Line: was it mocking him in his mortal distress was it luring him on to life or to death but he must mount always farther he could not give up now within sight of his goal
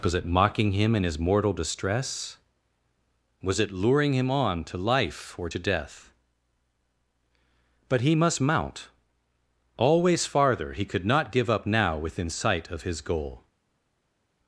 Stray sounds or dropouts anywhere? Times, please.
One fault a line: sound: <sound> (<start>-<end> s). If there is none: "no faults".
no faults